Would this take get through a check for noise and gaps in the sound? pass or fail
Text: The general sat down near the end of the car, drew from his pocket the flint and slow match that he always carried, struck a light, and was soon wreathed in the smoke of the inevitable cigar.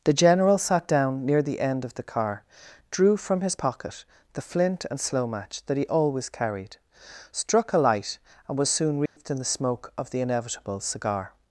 fail